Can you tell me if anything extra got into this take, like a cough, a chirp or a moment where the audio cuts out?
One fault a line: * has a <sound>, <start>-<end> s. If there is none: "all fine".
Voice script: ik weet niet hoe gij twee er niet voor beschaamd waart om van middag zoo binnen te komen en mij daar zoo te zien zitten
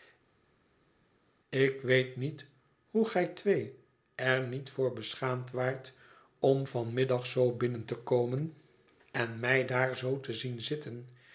all fine